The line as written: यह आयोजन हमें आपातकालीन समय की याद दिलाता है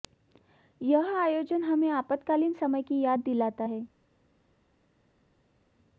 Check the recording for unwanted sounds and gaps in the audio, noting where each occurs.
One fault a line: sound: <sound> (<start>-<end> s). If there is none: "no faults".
no faults